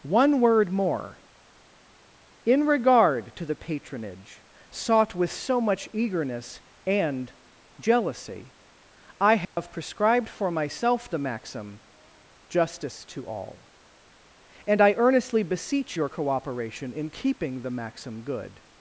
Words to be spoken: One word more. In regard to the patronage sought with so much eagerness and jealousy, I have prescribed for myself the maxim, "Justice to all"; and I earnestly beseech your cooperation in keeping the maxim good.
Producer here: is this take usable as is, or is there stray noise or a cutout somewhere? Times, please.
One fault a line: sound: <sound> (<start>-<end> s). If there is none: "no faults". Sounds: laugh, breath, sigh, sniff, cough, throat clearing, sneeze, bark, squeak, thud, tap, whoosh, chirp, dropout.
sound: dropout (9.4-9.6 s)